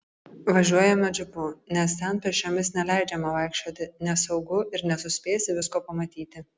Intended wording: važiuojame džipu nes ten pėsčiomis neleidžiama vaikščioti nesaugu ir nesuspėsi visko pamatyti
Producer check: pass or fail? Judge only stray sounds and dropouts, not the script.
pass